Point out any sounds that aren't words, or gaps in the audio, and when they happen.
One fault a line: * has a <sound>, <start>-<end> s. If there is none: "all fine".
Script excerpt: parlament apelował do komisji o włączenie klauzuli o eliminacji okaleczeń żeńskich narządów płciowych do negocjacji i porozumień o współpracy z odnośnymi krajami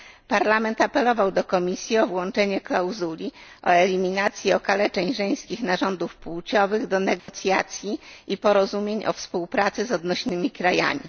* has a dropout, 7.2-7.3 s